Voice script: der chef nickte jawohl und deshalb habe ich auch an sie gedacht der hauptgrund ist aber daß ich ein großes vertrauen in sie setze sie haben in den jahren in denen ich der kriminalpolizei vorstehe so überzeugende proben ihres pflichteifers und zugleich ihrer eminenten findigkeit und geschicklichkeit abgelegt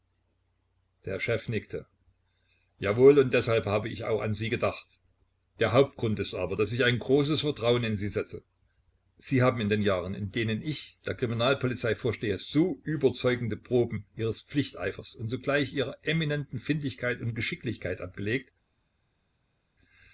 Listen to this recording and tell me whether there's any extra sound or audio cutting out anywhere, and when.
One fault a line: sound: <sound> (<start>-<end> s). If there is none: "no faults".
no faults